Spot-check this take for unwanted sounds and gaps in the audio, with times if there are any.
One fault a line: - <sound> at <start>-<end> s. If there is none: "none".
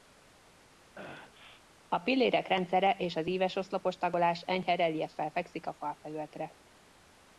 - sneeze at 1.0-1.6 s